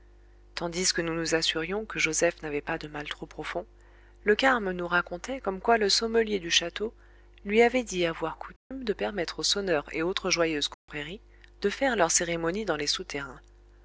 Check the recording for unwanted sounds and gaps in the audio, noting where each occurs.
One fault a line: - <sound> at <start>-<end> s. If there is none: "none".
- dropout at 8.6-8.7 s
- dropout at 10.7-10.9 s